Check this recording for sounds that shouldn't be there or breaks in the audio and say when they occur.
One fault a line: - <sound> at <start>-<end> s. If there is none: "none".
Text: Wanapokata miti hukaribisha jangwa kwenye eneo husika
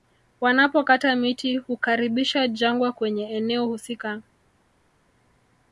none